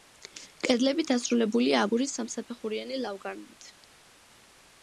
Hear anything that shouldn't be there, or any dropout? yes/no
no